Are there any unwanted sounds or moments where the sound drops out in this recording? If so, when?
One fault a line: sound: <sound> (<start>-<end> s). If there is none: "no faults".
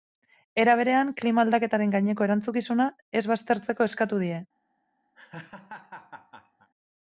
sound: laugh (5.1-6.7 s)